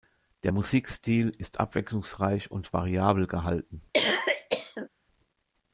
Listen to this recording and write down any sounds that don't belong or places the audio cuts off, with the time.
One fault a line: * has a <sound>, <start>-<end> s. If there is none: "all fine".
* has a cough, 3.9-4.9 s